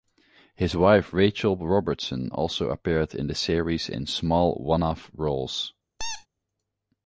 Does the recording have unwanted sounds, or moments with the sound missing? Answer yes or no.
yes